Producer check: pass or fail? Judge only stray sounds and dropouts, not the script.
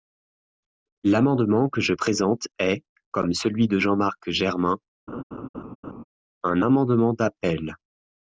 fail